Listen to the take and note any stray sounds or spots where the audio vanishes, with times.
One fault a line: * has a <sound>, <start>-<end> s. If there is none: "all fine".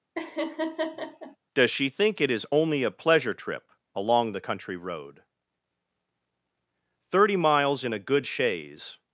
* has a laugh, 0.2-1.4 s